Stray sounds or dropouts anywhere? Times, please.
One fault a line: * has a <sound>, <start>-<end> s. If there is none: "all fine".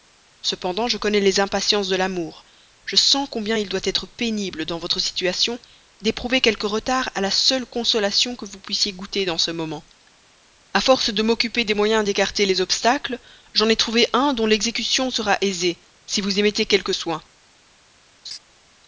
* has a laugh, 18.2-18.4 s